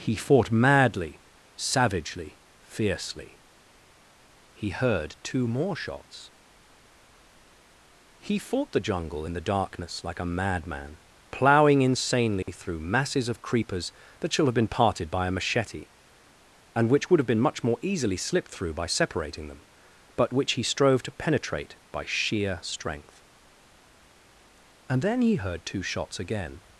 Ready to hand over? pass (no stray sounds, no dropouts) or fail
fail